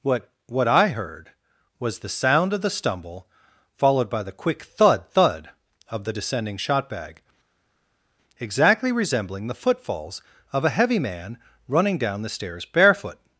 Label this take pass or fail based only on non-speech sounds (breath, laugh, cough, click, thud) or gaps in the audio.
pass